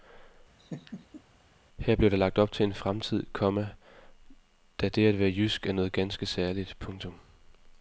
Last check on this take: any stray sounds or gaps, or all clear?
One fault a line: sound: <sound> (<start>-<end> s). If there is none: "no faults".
sound: laugh (0.6-1.2 s)